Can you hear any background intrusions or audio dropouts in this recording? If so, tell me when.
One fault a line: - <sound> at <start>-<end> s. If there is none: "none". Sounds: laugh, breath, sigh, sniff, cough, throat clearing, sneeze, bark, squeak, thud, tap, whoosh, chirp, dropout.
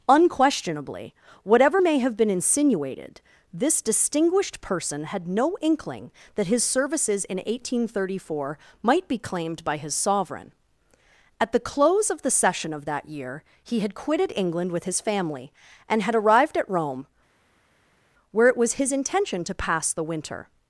none